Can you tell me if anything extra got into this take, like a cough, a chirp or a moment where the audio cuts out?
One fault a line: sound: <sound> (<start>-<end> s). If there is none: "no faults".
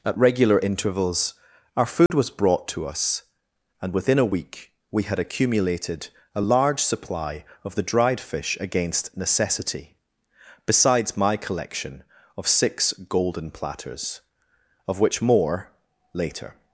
sound: dropout (2.1-2.1 s)